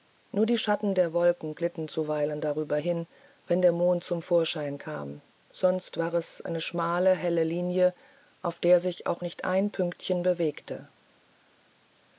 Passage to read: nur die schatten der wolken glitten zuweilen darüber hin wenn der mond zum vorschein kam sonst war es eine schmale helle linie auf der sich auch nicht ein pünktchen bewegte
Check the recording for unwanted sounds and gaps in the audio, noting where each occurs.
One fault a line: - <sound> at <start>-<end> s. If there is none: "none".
none